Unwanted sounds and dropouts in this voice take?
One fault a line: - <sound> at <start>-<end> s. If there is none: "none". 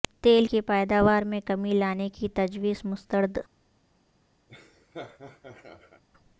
- laugh at 4.5-6.0 s